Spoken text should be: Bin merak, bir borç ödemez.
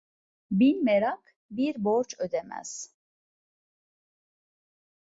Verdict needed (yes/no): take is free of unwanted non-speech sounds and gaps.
yes